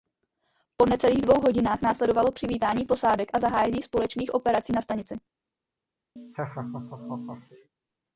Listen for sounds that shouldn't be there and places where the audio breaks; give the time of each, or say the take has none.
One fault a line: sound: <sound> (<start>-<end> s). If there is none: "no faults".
sound: laugh (6.2-7.7 s)